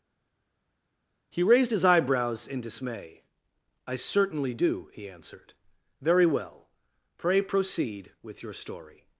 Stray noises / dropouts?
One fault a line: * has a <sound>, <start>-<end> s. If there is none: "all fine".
all fine